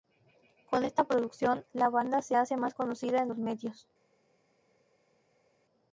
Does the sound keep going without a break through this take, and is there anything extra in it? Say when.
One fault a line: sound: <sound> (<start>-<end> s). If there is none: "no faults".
no faults